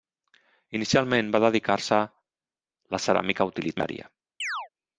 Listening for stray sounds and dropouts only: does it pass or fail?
fail